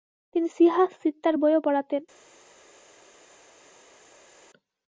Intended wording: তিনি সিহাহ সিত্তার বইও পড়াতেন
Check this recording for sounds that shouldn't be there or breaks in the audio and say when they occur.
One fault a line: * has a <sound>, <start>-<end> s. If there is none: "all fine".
all fine